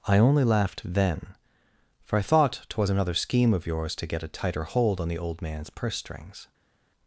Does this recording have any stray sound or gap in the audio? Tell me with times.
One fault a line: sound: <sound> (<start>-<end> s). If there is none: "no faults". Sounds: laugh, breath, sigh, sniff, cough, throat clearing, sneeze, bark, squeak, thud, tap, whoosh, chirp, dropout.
no faults